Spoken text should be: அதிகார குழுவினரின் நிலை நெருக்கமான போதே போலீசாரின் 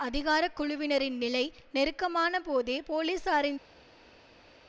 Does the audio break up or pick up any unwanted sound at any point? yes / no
no